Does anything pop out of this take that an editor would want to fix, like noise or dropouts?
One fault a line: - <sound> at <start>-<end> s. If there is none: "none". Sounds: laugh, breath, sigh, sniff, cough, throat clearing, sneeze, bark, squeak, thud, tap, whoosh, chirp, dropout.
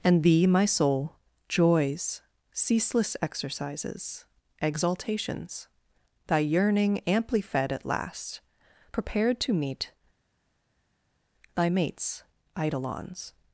none